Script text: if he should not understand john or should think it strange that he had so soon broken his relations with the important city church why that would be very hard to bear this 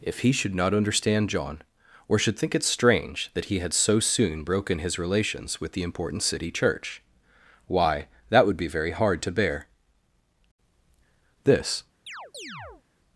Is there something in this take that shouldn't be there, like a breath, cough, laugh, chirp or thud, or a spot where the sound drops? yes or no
yes